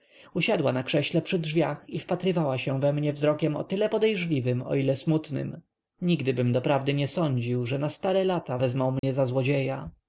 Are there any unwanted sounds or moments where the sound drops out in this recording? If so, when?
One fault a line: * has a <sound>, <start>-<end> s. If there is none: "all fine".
* has a dropout, 9.0-9.0 s